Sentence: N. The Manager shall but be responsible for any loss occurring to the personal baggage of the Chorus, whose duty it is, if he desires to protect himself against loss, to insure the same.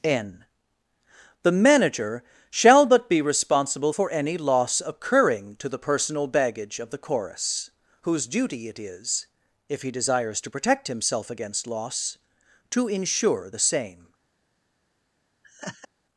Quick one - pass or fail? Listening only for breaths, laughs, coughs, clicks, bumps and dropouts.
fail